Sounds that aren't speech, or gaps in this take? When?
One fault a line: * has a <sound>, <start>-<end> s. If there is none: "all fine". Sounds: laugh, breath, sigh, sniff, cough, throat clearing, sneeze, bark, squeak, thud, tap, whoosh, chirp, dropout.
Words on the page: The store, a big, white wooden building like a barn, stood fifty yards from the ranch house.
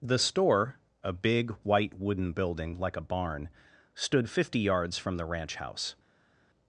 all fine